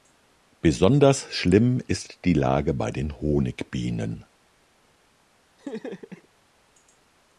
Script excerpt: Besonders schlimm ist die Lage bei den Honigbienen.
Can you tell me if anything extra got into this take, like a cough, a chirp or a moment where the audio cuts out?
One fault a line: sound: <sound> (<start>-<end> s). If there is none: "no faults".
sound: laugh (5.6-6.3 s)